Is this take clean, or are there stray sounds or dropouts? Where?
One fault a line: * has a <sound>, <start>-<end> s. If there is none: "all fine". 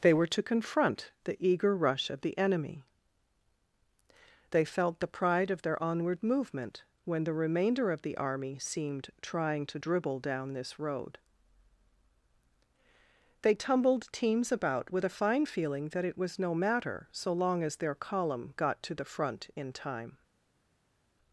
all fine